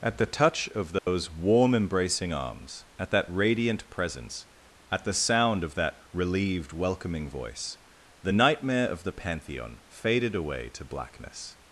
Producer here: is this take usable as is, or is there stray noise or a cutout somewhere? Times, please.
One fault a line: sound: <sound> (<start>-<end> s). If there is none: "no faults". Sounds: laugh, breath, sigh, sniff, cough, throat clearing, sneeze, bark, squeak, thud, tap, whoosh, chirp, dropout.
sound: dropout (1.0-1.1 s)